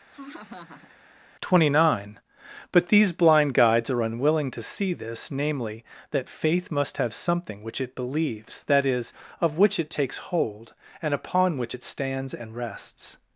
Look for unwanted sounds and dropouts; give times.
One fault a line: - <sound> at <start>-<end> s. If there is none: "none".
- laugh at 0.1-1.0 s